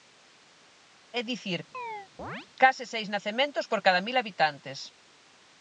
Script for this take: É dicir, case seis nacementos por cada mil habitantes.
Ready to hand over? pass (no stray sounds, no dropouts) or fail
fail